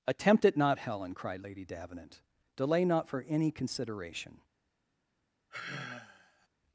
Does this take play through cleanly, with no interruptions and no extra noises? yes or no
no